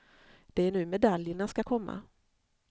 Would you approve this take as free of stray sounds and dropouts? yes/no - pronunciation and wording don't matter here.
yes